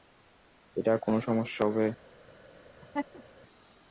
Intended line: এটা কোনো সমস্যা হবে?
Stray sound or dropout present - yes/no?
yes